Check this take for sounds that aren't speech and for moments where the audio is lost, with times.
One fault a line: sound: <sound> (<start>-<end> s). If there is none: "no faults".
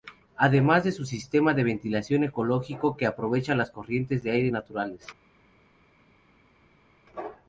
no faults